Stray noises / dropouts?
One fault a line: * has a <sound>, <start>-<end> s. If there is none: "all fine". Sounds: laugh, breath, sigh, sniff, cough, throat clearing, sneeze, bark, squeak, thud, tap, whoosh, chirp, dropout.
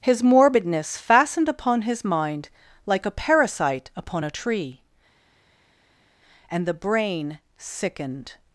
all fine